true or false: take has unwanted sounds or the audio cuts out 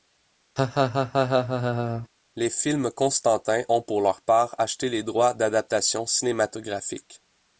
true